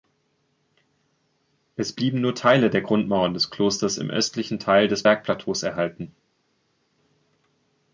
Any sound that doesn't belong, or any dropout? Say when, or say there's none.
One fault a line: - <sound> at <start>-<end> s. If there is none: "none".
none